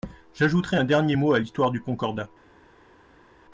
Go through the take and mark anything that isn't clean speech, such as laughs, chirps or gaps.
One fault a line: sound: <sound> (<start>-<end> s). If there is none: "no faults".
no faults